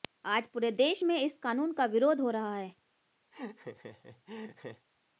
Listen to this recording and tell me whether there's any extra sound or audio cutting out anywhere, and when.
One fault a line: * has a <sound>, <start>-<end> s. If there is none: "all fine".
* has a laugh, 3.3-4.9 s